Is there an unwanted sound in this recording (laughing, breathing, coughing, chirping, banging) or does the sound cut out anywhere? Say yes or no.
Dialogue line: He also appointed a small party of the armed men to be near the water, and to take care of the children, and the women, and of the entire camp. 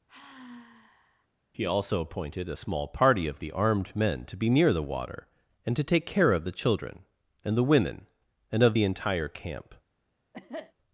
yes